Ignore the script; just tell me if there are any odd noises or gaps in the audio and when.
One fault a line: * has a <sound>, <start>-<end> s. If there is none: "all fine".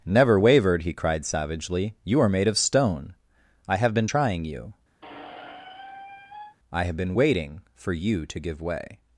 * has a squeak, 5.0-6.6 s